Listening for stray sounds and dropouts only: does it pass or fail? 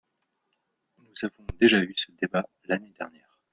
pass